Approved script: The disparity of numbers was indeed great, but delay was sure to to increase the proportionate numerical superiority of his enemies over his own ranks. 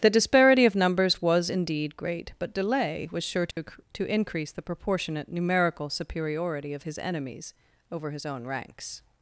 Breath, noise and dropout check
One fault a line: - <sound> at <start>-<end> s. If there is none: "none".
- dropout at 3.5-3.6 s